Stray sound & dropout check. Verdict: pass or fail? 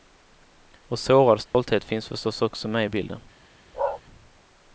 fail